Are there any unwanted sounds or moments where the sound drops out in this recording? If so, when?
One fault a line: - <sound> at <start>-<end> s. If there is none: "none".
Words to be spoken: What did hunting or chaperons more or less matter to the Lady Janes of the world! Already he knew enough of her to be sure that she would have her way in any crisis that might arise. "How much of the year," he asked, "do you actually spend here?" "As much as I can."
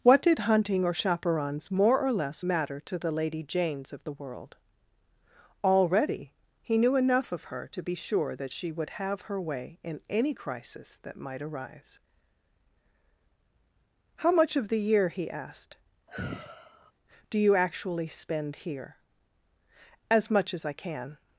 - sigh at 16.1-16.9 s